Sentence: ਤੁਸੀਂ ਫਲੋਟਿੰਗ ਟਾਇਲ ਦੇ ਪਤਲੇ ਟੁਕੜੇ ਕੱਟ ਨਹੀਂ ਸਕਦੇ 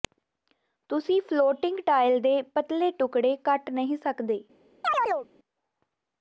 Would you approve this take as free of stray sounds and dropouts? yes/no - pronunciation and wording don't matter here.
no